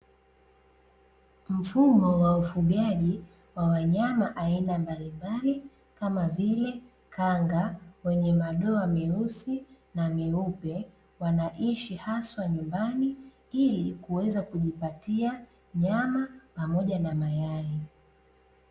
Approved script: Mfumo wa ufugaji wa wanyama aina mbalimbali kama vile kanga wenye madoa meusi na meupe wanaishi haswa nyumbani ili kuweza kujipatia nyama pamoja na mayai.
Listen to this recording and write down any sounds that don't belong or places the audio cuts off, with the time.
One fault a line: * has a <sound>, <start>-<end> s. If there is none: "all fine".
all fine